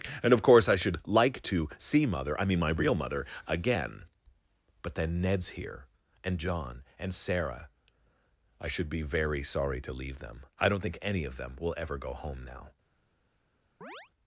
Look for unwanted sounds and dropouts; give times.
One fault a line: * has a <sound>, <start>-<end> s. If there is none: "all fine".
* has a chirp, 13.8-14.1 s